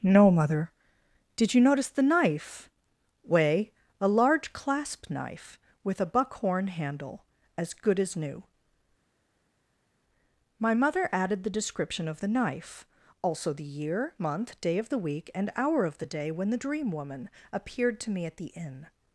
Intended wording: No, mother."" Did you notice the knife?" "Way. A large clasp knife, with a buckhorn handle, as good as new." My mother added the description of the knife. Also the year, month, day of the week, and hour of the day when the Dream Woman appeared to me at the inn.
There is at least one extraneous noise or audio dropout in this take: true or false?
false